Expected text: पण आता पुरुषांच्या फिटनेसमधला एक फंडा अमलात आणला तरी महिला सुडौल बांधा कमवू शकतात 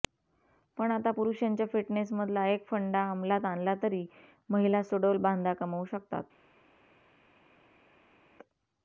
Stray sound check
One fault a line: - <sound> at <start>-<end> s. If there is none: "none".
none